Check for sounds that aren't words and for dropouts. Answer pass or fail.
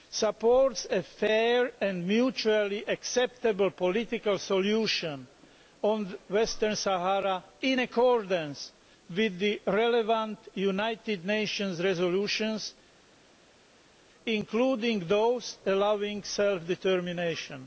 pass